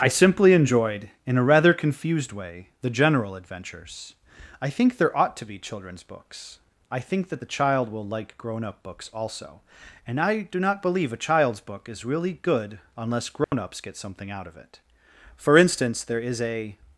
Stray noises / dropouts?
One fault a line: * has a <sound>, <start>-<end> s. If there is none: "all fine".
* has a dropout, 13.4-13.5 s